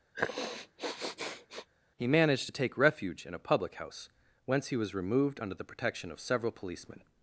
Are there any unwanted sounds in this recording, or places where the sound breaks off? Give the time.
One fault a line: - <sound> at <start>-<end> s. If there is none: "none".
- sniff at 0.1-1.7 s